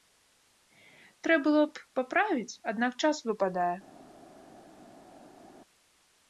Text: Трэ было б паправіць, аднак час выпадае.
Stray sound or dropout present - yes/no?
no